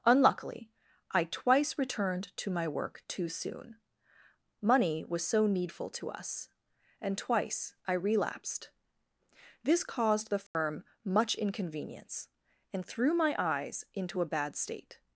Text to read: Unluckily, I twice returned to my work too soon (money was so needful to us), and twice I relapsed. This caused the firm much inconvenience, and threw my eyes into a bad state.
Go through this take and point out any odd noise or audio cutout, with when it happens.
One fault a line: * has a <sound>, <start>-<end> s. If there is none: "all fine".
* has a dropout, 10.5-10.5 s